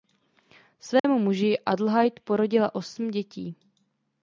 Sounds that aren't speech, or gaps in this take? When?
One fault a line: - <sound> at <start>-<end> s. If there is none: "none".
- dropout at 1.0-1.0 s